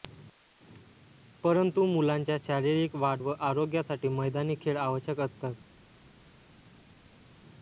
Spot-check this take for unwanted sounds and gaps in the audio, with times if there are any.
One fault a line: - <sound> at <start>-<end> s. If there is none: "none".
none